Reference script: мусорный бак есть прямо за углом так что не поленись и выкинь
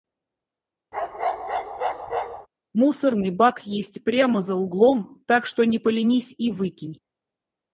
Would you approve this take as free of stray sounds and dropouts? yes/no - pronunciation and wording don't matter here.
no